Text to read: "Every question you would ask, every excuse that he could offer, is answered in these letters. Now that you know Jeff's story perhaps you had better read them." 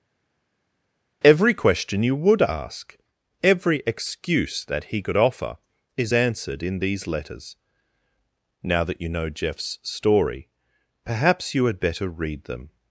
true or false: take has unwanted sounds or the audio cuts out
false